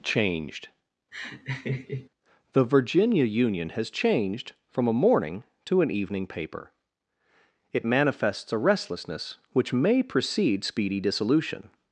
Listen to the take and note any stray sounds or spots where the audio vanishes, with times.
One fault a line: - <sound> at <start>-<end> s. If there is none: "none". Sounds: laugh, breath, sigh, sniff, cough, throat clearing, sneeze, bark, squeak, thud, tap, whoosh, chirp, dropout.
- laugh at 1.1-2.1 s